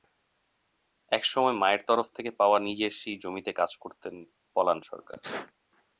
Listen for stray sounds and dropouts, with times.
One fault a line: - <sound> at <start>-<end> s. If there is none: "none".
none